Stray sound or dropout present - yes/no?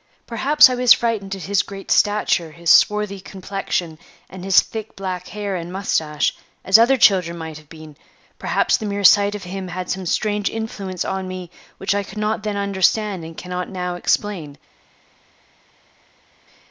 no